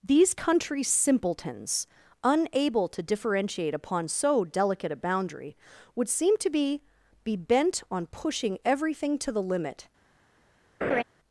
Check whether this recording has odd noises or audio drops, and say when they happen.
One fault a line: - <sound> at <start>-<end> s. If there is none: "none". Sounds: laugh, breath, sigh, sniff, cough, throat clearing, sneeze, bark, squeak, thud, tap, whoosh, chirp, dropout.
- laugh at 10.8-11.0 s